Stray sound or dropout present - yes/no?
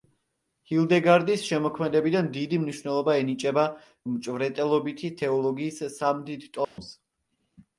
yes